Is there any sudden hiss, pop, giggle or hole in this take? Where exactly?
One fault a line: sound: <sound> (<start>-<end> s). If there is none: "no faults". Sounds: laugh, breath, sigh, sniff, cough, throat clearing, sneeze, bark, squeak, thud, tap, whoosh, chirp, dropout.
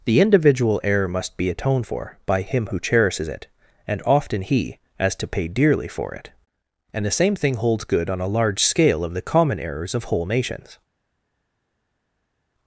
no faults